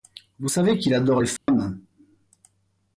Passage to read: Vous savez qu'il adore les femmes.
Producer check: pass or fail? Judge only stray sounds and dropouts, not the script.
fail